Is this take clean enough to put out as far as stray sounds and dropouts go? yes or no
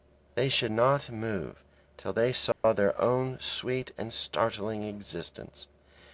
no